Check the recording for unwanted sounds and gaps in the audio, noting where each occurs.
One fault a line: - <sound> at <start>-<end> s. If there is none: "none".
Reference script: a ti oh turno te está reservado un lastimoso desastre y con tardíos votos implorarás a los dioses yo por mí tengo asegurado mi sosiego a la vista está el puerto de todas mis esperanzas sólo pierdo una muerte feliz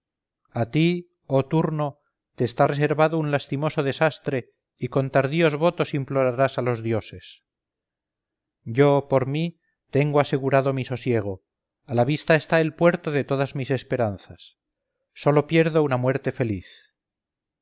none